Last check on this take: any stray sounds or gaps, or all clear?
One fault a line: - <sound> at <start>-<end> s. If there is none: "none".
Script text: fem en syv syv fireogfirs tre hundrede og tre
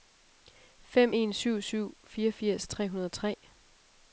none